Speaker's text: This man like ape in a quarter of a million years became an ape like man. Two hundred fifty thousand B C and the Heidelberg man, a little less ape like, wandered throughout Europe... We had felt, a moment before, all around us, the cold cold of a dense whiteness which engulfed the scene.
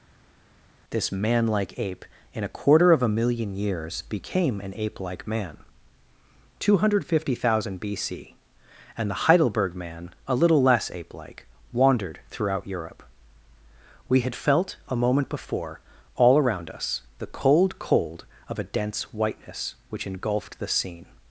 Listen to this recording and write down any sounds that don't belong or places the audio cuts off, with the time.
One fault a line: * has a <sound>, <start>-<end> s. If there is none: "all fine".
all fine